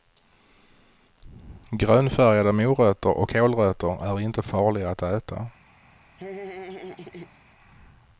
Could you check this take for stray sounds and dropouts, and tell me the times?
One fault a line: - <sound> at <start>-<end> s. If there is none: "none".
- laugh at 6.2-7.4 s